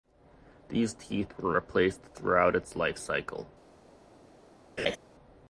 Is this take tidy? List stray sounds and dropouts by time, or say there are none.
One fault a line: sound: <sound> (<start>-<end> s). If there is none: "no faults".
sound: laugh (4.8-5.0 s)